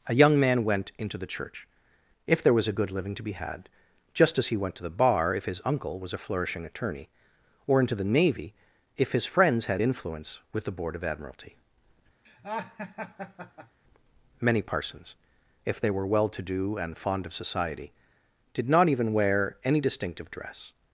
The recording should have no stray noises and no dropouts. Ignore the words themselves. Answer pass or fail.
fail